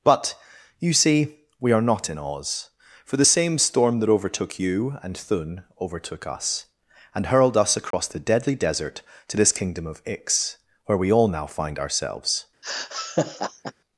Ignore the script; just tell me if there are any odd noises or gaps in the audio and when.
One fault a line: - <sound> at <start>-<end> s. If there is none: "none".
- dropout at 7.9-7.9 s
- laugh at 12.6-13.7 s